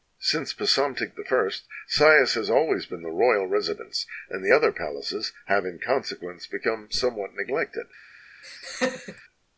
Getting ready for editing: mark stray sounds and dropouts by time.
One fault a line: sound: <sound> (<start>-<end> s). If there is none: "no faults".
sound: laugh (8.4-9.2 s)